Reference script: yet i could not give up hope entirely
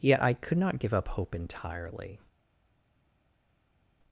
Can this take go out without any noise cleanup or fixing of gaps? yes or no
yes